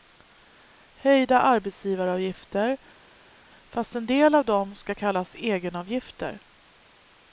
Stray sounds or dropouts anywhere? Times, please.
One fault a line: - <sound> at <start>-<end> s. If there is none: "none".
none